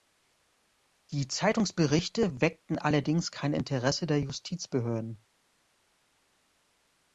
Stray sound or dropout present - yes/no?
no